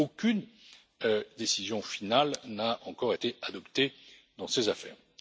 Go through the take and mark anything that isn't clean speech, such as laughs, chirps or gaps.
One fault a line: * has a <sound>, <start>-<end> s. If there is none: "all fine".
all fine